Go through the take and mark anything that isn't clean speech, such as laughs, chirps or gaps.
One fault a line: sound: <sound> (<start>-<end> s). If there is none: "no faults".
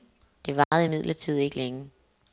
sound: dropout (0.6-0.7 s)